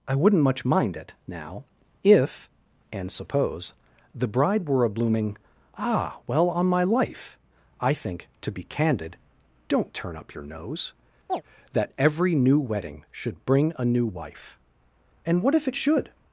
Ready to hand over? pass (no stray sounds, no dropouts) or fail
fail